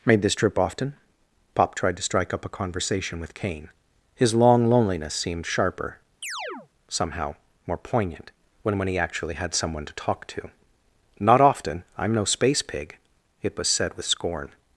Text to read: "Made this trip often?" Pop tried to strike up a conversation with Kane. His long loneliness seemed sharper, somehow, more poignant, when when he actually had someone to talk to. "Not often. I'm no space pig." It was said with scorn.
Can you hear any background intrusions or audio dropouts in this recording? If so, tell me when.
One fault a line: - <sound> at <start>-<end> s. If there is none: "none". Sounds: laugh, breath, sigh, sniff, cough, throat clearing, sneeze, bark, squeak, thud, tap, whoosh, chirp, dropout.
- chirp at 6.2-6.7 s